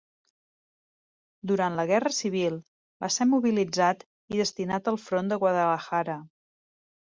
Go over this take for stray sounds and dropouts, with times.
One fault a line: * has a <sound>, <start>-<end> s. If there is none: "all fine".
all fine